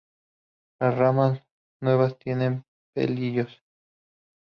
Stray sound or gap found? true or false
false